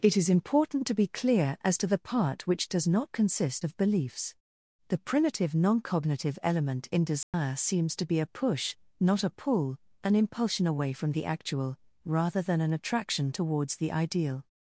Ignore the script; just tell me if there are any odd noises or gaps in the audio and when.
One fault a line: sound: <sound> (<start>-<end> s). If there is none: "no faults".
sound: dropout (7.2-7.3 s)